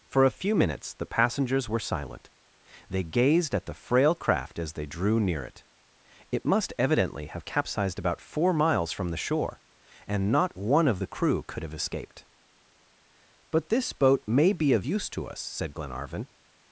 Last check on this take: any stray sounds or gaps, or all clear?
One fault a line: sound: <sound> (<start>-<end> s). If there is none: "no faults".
no faults